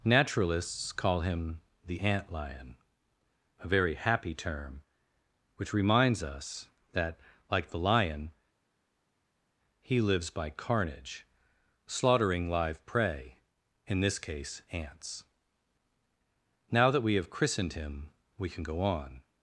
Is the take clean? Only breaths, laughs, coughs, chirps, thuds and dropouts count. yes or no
yes